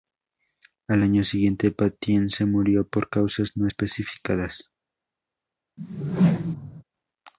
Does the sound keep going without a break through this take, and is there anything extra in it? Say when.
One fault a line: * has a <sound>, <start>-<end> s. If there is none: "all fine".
* has a whoosh, 5.8-6.8 s